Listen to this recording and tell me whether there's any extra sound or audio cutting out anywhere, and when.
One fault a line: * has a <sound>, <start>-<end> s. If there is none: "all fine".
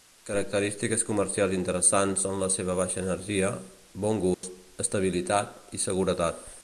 * has a dropout, 4.3-4.4 s